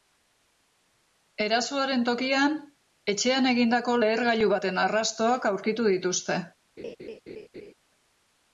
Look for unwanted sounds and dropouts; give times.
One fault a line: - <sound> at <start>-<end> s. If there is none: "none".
- laugh at 6.8-7.7 s